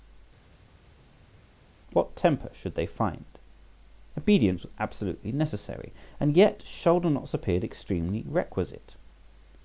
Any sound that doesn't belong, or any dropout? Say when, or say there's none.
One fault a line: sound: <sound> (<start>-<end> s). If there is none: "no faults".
no faults